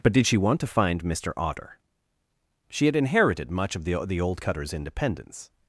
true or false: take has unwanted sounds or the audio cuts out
false